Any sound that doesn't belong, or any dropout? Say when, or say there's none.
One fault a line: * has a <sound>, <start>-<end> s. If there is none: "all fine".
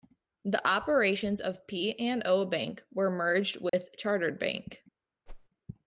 * has a dropout, 3.7-3.7 s
* has a whoosh, 5.3-5.5 s